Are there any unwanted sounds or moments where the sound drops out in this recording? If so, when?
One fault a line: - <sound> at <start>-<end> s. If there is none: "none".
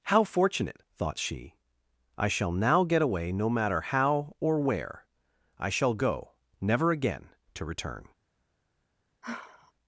- sigh at 9.2-9.7 s